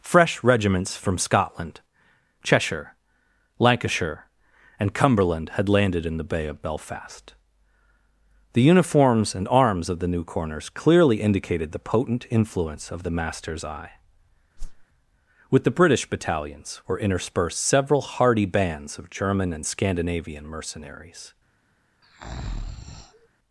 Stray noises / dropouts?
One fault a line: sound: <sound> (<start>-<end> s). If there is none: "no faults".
sound: whoosh (14.6-14.9 s)
sound: breath (22.0-23.3 s)